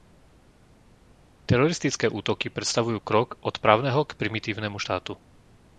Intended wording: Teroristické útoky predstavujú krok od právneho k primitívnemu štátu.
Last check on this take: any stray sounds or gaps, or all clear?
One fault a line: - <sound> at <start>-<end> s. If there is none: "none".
none